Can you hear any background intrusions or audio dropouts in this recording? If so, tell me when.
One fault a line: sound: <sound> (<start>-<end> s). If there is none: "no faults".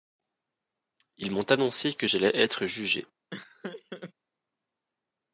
sound: laugh (3.3-4.1 s)